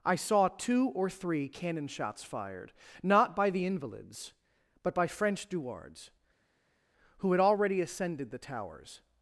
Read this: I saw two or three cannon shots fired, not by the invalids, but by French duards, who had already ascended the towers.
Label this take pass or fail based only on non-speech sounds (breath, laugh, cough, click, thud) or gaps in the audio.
pass